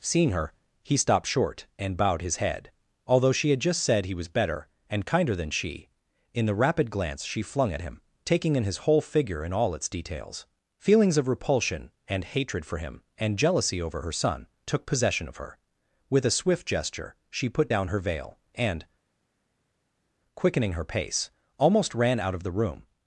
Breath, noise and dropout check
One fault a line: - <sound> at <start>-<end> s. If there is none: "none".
none